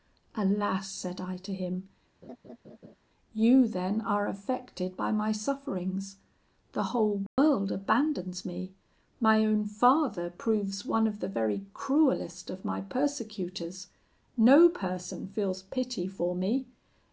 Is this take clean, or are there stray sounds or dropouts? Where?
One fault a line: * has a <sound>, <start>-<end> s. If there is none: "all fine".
* has a laugh, 2.2-3.0 s
* has a dropout, 7.3-7.4 s